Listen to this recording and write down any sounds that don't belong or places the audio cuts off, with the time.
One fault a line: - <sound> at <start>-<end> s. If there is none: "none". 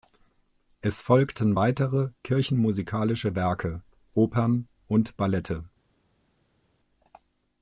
none